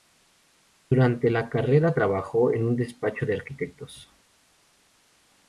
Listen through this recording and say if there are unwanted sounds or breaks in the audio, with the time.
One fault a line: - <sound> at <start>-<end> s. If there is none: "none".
none